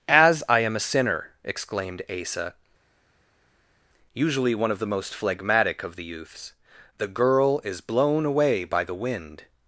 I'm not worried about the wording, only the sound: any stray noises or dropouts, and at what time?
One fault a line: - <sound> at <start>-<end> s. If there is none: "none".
none